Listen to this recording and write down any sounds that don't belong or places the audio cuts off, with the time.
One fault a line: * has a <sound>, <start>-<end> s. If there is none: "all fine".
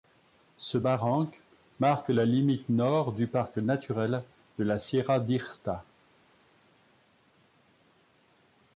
all fine